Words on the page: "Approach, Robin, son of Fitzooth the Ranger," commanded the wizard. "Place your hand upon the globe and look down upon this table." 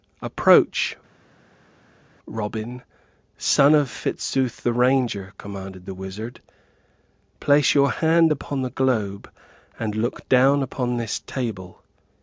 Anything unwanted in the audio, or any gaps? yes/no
no